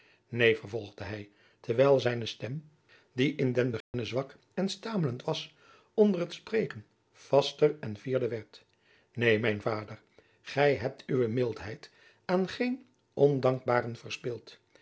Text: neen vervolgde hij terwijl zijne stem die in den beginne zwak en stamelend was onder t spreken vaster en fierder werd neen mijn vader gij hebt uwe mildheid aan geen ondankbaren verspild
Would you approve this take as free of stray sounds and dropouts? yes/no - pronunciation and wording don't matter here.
no